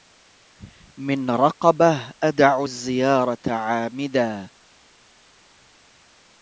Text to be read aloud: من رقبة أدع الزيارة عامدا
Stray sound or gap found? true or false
false